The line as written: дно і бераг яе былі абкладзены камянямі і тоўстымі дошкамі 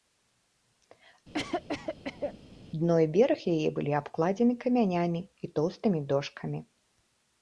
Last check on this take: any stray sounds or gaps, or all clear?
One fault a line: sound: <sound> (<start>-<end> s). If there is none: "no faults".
sound: cough (1.3-2.4 s)